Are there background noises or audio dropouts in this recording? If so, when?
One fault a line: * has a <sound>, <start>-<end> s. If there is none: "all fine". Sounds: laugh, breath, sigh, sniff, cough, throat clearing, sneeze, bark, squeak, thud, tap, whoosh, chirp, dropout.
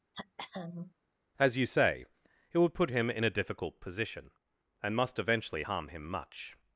* has a throat clearing, 0.1-0.9 s